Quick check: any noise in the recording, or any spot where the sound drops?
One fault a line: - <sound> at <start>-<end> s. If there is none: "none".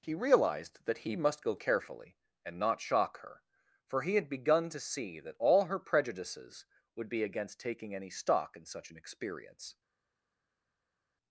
none